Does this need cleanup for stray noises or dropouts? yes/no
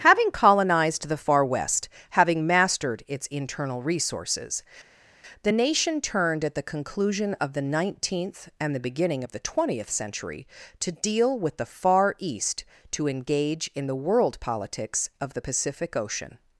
no